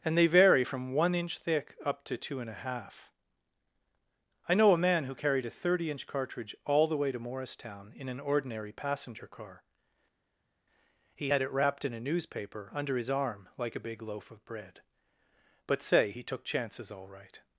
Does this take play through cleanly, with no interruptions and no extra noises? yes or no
yes